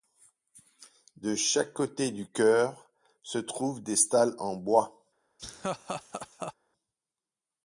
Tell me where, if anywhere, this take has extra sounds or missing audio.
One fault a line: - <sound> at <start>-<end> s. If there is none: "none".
- laugh at 5.4-6.5 s